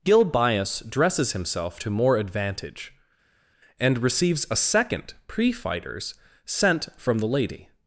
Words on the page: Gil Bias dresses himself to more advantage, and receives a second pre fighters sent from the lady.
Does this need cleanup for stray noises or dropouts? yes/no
no